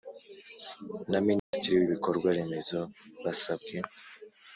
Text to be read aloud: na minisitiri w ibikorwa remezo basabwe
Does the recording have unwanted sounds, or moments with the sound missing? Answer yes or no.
yes